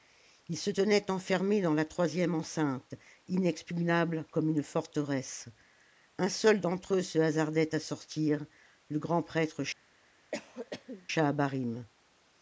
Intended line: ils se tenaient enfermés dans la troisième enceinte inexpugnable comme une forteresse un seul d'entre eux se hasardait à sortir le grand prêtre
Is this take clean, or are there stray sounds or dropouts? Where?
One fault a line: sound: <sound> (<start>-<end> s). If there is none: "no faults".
sound: cough (10.3-11.1 s)